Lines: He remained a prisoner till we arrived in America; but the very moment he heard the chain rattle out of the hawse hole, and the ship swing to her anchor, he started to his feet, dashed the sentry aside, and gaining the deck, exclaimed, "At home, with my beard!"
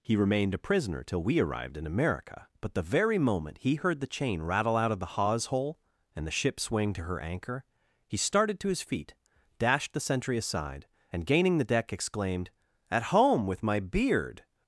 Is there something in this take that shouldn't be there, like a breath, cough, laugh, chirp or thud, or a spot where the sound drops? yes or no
no